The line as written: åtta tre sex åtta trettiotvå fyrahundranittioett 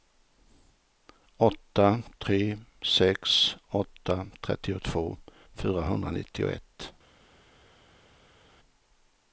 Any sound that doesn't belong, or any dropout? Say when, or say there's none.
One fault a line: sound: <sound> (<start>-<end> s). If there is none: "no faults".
no faults